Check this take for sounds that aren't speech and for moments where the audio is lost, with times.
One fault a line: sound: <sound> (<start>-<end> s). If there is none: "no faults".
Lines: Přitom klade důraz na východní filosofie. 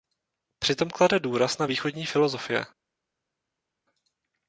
no faults